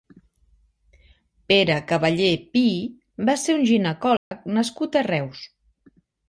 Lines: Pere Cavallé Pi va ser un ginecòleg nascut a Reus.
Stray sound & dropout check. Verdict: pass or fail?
fail